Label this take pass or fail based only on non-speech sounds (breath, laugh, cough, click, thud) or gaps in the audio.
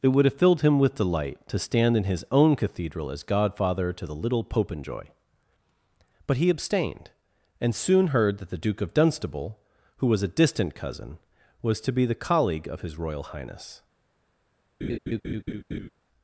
fail